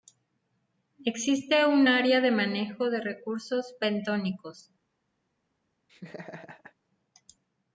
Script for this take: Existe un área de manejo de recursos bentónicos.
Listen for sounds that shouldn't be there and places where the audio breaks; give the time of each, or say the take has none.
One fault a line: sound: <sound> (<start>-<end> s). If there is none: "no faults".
sound: laugh (5.9-6.7 s)